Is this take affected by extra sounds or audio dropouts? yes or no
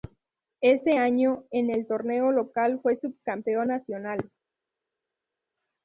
no